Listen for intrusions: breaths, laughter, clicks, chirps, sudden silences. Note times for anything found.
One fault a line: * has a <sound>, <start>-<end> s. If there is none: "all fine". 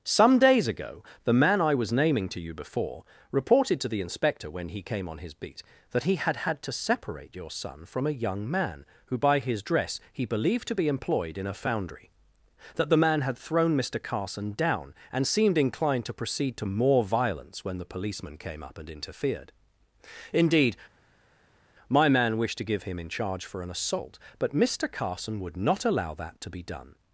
all fine